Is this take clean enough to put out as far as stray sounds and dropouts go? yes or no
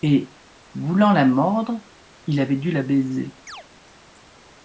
no